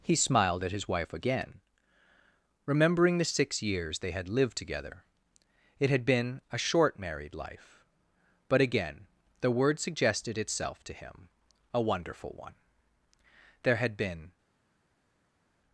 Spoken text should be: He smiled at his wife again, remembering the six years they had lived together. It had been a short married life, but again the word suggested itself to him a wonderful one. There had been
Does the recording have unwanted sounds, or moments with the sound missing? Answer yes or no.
no